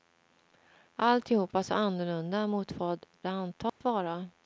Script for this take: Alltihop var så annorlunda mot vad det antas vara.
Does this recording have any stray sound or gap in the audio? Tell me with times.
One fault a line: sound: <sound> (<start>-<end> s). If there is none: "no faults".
sound: dropout (3.7-3.8 s)